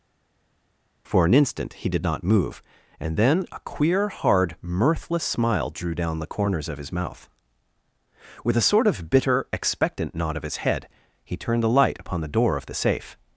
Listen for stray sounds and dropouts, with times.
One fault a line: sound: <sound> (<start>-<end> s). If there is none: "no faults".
no faults